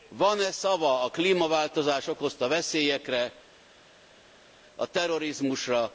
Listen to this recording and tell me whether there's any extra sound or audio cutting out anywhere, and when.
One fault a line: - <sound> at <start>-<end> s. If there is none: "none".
none